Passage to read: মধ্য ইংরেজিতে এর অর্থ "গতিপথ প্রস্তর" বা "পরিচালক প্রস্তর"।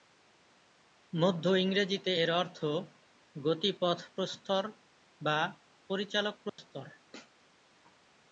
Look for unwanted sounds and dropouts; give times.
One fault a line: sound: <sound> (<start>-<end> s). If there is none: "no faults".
sound: dropout (6.5-6.6 s)